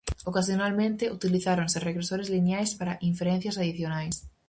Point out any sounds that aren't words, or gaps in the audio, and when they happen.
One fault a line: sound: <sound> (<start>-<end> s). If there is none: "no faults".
no faults